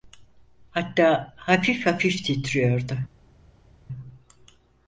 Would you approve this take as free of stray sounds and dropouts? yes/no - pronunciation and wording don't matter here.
yes